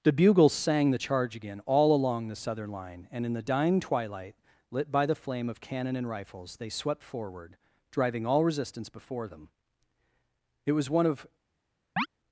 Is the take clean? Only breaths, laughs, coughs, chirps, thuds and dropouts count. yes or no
no